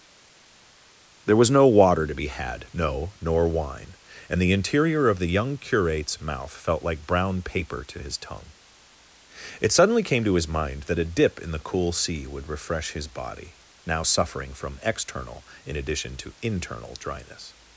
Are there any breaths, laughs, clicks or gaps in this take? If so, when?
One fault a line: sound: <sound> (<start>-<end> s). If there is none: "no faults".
no faults